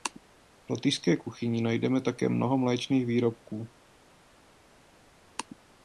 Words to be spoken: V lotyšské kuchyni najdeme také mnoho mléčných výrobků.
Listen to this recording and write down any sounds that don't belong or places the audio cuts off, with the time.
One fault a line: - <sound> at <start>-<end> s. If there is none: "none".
none